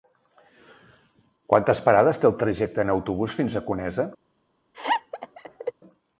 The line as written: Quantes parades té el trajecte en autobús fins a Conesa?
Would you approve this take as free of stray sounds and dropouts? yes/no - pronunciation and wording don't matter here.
no